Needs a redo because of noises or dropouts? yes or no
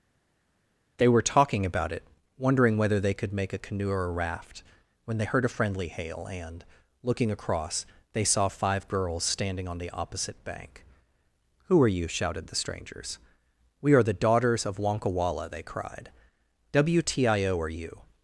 no